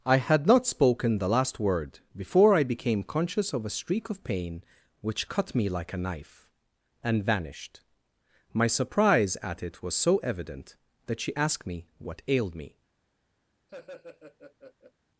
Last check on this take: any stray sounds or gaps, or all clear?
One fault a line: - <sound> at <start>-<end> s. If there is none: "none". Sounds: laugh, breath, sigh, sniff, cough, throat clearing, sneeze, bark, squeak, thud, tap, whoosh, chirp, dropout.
- laugh at 13.7-14.9 s